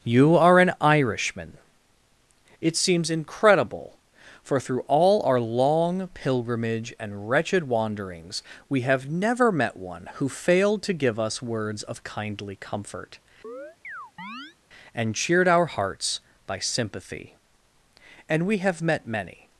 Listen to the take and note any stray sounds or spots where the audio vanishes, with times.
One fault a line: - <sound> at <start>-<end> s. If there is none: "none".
- chirp at 13.4-14.6 s